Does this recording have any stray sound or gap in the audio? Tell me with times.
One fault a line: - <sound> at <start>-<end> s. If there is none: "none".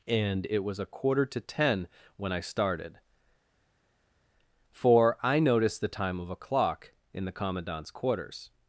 none